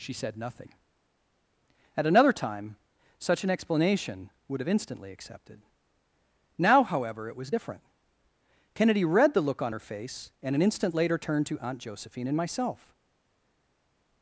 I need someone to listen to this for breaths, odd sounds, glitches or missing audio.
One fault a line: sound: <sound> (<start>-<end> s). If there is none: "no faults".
no faults